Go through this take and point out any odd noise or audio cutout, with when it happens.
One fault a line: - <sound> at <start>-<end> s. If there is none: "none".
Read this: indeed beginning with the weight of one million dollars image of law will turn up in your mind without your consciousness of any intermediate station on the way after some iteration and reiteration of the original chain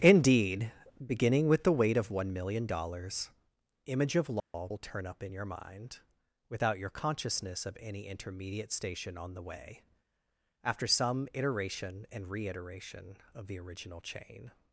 - dropout at 4.4-4.5 s